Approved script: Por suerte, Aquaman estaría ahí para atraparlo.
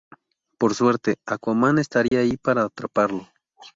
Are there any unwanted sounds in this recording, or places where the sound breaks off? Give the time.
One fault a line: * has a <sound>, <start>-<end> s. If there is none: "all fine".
* has a dropout, 2.1-2.1 s